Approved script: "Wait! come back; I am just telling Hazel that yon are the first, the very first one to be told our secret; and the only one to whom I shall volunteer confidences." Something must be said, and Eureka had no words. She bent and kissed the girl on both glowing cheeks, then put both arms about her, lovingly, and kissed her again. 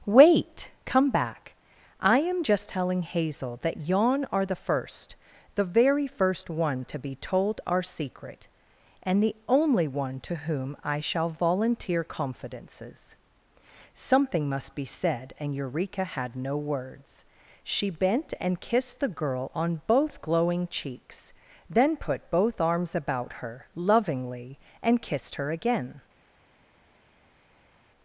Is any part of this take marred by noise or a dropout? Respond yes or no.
no